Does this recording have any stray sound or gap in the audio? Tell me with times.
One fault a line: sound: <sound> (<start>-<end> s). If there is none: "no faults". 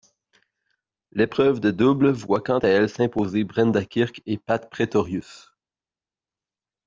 no faults